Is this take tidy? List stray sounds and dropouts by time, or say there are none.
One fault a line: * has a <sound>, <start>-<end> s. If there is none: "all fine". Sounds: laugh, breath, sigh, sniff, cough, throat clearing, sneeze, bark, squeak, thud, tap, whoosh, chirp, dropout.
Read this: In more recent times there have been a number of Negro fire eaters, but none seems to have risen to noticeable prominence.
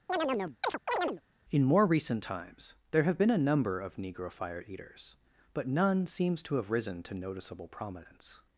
* has a chirp, 0.1-1.2 s